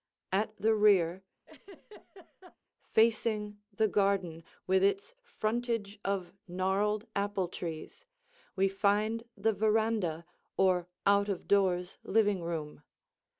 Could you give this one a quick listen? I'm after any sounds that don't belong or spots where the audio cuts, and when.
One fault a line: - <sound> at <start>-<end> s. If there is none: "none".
- laugh at 1.5-2.6 s